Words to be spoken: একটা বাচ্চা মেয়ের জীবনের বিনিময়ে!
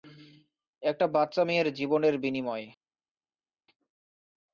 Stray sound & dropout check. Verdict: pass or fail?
pass